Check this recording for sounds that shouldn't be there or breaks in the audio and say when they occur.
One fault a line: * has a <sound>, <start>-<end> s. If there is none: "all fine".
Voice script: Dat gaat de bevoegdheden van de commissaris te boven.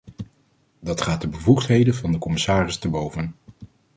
all fine